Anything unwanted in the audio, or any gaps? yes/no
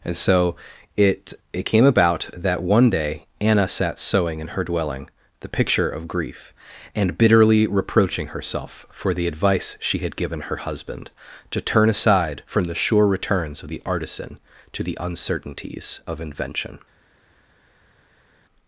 no